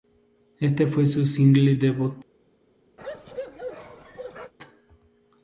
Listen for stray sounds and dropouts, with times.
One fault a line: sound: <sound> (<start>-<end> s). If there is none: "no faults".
sound: bark (3.0-4.5 s)